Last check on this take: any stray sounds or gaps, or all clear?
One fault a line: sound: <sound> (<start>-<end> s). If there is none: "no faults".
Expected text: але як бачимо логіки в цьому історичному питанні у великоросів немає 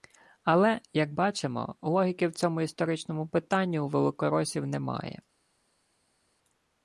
no faults